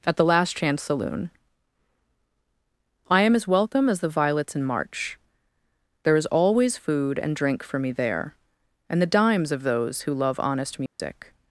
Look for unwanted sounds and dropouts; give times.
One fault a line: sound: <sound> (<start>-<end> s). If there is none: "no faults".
sound: dropout (10.9-11.0 s)